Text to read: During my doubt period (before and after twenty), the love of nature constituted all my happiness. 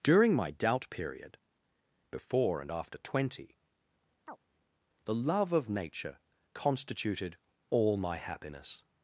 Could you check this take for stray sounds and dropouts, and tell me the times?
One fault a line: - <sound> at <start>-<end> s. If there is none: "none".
- chirp at 4.3-4.4 s